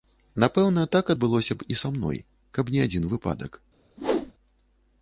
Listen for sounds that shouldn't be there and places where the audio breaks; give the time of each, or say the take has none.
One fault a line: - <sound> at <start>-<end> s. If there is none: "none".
- whoosh at 4.0-4.3 s